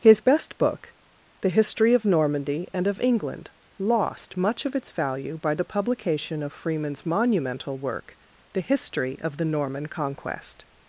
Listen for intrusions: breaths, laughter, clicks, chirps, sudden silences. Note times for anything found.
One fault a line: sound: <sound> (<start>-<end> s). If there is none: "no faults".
no faults